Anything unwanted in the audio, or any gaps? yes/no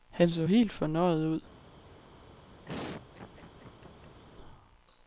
yes